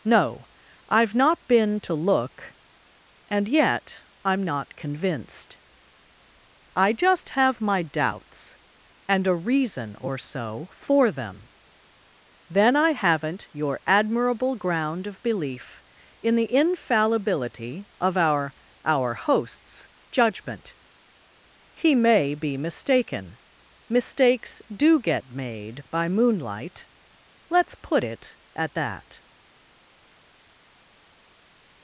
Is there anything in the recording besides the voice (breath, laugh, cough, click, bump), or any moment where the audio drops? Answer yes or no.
no